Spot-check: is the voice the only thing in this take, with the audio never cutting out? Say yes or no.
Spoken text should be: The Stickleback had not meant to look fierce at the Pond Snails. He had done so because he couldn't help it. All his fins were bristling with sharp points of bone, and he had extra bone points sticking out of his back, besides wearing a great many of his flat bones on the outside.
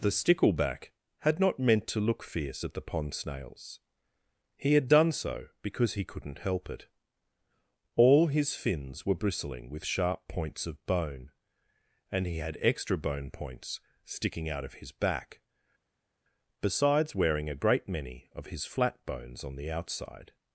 yes